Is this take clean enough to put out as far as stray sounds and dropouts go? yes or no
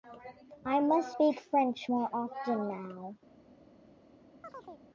no